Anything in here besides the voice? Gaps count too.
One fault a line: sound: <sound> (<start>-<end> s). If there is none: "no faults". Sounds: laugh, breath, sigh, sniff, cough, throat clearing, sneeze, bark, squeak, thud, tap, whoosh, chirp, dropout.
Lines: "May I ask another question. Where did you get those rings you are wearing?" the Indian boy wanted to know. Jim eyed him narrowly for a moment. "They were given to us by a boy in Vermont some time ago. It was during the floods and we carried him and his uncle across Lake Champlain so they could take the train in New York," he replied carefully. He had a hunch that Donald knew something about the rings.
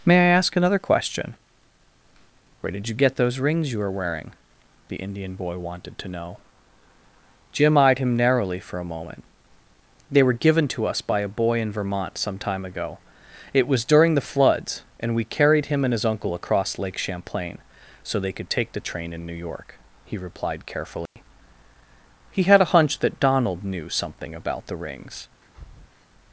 sound: dropout (21.1-21.2 s)
sound: breath (25.4-26.1 s)